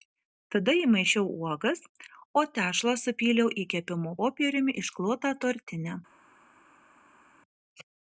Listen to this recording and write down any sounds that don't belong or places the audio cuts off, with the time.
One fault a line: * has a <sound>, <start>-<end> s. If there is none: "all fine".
all fine